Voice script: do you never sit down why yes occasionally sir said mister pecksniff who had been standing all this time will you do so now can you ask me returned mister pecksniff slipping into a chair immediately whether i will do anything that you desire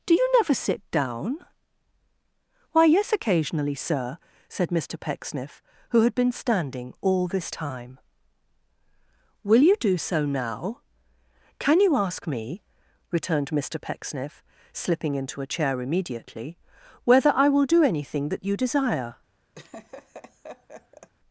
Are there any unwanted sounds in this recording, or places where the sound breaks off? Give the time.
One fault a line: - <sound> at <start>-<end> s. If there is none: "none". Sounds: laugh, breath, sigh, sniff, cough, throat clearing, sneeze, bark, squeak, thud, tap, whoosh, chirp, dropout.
- laugh at 19.6-21.1 s